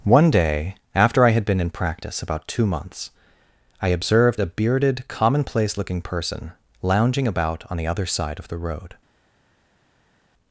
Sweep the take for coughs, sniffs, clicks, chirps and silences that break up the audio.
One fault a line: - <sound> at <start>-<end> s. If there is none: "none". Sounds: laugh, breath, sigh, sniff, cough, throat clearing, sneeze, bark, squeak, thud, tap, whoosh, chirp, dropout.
none